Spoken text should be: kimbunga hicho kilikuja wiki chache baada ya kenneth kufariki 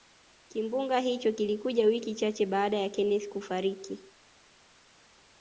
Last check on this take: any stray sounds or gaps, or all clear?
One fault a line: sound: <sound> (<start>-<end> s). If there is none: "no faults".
no faults